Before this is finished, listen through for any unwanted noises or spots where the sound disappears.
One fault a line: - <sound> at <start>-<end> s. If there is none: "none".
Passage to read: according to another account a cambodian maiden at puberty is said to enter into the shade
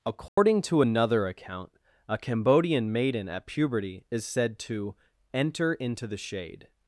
- dropout at 0.3-0.4 s